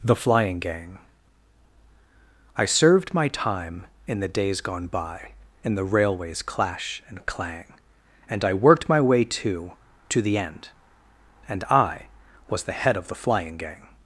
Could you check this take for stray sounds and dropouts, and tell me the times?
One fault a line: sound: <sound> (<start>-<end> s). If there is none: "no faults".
no faults